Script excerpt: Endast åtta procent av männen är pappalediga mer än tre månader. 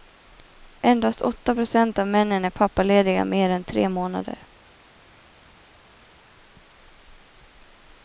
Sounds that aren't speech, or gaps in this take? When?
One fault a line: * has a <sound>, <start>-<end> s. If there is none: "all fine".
all fine